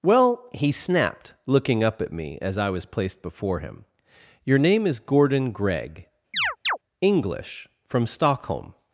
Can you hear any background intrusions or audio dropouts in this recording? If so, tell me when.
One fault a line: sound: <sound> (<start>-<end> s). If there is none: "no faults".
sound: chirp (6.3-6.8 s)